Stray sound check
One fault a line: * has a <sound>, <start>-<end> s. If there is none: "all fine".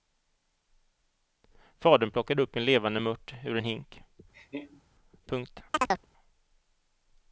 * has a laugh, 4.3-4.8 s
* has a chirp, 5.7-6.1 s